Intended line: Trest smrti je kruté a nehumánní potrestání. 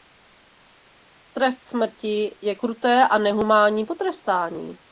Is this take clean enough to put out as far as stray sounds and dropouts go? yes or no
yes